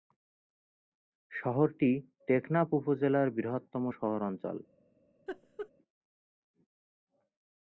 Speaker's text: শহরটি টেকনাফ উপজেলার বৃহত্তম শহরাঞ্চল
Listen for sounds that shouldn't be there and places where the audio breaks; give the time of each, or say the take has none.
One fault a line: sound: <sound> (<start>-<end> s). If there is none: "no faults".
sound: laugh (5.3-5.7 s)